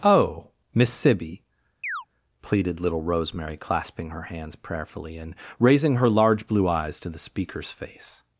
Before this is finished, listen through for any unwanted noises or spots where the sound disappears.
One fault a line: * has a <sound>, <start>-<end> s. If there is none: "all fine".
* has a chirp, 1.8-2.1 s